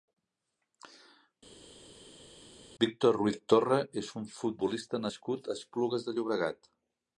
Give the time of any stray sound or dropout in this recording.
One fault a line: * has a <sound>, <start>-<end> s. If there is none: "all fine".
all fine